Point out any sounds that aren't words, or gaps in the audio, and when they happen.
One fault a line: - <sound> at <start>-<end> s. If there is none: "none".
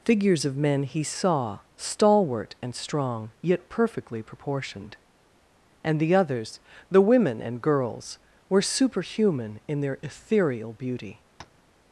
- tap at 11.4-11.6 s